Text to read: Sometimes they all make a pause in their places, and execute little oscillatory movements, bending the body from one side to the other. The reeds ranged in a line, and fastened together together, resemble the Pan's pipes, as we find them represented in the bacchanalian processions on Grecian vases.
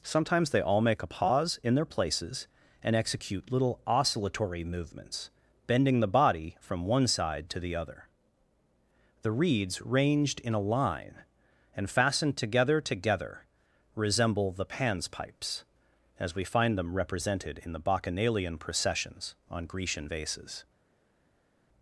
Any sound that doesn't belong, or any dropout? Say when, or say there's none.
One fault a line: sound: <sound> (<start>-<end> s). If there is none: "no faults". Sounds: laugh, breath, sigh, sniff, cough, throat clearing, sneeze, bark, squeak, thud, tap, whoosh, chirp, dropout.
no faults